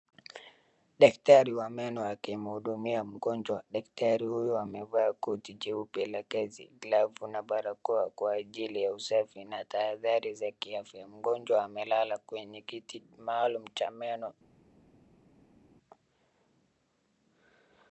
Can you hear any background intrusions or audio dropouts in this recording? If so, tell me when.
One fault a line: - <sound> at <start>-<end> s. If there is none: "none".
none